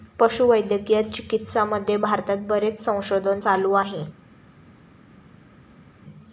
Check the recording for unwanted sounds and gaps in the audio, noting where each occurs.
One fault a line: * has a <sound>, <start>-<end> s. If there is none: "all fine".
all fine